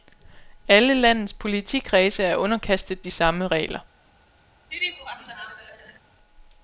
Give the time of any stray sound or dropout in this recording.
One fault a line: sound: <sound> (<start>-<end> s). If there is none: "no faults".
sound: laugh (4.7-6.0 s)